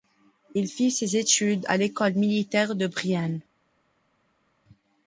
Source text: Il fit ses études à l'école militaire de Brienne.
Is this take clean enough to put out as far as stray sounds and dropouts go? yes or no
yes